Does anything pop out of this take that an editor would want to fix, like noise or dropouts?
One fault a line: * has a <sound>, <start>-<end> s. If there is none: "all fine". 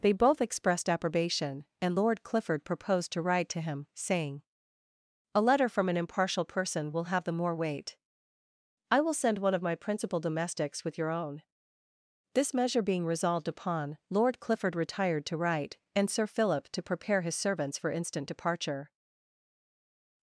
all fine